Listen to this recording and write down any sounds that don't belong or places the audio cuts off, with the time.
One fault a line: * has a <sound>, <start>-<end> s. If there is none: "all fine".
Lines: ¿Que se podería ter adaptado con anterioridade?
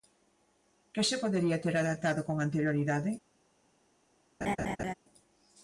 * has a laugh, 4.4-4.9 s